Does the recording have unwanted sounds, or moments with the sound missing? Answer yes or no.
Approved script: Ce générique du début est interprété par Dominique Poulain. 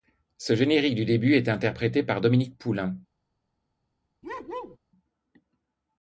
yes